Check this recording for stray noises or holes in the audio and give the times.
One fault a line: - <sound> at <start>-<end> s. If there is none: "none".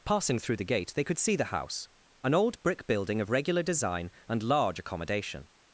none